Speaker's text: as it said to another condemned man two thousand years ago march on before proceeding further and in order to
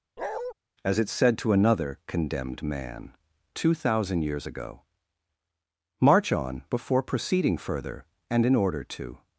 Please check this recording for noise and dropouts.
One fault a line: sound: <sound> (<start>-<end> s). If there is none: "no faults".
sound: bark (0.2-0.5 s)